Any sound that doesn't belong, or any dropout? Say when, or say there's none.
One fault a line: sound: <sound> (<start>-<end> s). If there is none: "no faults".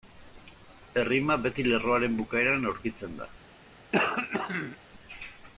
sound: throat clearing (3.9-4.8 s)